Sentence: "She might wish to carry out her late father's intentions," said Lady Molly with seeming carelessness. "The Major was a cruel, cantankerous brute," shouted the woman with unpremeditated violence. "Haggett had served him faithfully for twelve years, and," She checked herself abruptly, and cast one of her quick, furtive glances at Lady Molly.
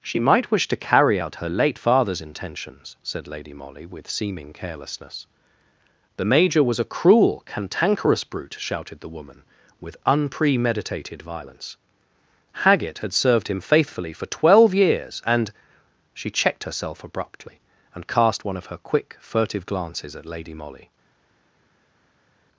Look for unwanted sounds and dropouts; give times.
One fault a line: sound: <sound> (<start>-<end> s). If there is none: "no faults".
no faults